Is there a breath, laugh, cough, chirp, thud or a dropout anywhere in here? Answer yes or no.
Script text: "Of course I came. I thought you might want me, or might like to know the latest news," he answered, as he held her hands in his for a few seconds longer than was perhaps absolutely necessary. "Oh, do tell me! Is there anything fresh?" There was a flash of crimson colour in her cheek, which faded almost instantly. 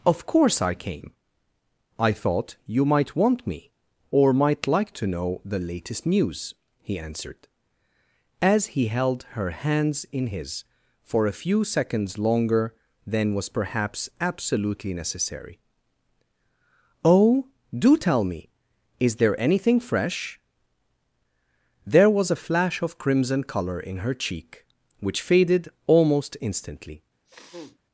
yes